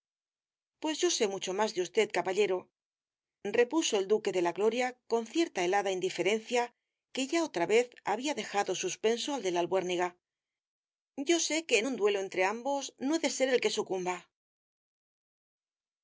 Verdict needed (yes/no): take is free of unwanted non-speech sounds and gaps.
yes